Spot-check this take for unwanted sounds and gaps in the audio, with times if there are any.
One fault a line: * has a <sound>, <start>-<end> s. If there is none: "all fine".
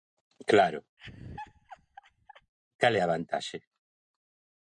* has a laugh, 1.0-2.5 s